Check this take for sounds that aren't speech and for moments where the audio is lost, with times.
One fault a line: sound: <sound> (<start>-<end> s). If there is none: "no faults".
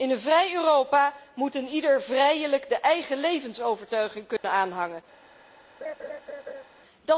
sound: dropout (4.4-4.4 s)
sound: laugh (5.8-6.6 s)